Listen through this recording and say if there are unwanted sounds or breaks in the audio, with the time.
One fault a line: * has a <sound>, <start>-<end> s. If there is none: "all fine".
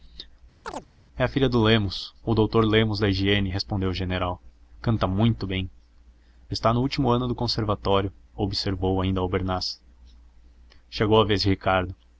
* has a chirp, 0.6-0.9 s